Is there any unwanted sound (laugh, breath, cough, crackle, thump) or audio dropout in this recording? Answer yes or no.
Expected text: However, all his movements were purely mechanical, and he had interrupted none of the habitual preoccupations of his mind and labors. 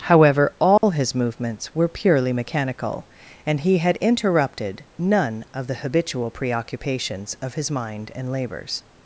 yes